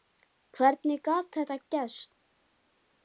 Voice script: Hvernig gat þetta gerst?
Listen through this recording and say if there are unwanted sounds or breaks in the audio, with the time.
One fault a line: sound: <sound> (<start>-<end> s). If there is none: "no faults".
no faults